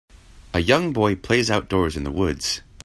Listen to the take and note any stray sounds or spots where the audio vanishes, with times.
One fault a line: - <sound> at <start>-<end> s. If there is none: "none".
none